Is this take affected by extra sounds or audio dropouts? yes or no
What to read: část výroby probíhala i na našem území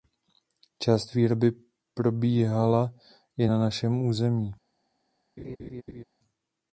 yes